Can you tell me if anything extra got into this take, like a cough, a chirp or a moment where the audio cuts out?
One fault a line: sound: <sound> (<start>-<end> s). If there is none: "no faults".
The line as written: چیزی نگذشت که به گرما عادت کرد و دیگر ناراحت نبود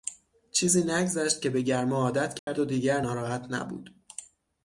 sound: dropout (2.4-2.5 s)